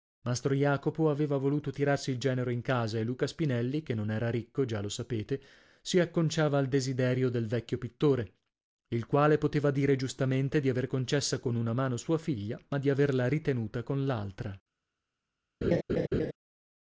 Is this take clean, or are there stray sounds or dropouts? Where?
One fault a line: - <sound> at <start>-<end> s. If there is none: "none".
- laugh at 15.6-16.3 s